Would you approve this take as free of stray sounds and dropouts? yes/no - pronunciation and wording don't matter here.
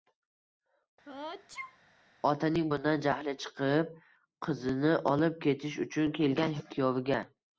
no